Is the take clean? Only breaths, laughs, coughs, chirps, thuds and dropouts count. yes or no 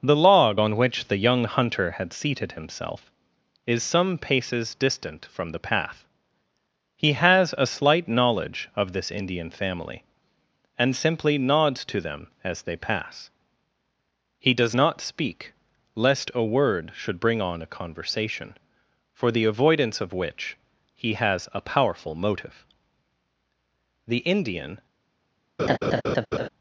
no